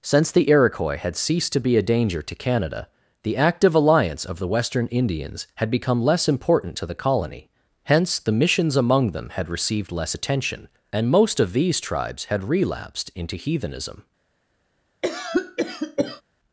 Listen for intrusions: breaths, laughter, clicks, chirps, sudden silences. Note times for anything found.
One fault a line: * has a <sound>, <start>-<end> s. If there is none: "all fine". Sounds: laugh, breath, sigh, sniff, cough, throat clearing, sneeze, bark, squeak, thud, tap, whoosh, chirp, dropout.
* has a cough, 15.0-16.2 s